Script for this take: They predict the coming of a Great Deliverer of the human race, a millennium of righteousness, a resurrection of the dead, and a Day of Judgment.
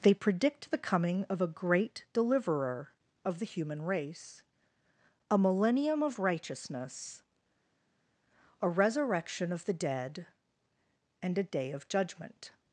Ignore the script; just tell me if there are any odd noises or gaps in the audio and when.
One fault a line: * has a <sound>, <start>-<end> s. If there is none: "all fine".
all fine